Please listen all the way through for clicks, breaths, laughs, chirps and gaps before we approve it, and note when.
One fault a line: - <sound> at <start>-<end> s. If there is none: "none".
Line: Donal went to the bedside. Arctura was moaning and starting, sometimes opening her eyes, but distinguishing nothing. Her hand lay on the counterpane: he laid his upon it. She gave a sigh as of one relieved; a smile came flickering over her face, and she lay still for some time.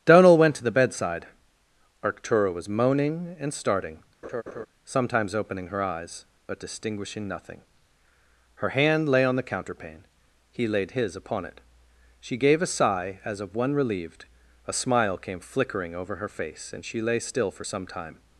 - laugh at 4.2-4.7 s